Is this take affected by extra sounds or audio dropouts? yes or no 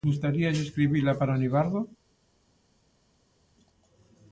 no